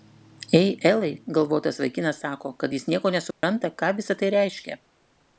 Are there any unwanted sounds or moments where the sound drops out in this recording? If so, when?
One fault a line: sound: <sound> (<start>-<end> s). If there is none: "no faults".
sound: dropout (3.3-3.4 s)